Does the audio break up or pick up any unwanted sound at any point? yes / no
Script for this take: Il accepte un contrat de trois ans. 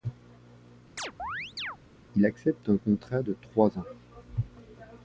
yes